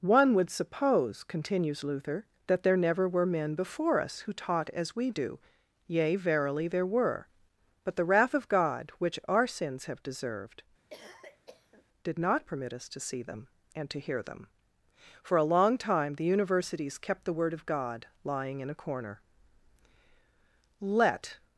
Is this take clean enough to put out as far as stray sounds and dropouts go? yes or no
no